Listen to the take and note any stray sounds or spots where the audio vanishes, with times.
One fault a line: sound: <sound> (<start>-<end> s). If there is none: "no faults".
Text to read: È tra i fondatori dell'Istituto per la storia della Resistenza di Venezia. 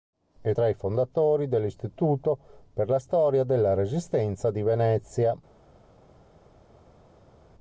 no faults